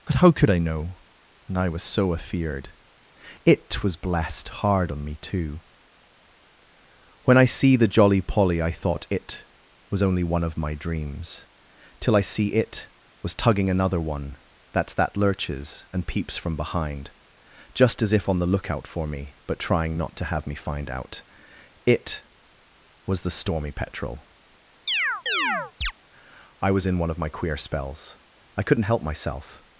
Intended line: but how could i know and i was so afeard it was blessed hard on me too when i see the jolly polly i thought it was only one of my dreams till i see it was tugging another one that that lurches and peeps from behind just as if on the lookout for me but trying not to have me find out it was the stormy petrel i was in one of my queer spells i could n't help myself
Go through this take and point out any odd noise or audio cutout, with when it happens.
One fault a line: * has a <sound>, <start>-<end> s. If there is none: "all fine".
* has a chirp, 24.9-25.9 s